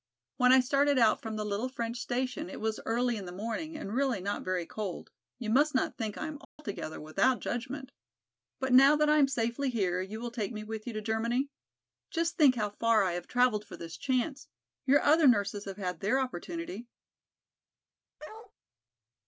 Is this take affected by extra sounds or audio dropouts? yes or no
yes